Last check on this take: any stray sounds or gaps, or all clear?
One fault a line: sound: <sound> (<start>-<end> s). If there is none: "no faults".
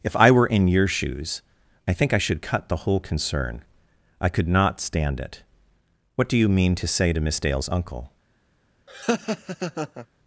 sound: laugh (8.9-10.1 s)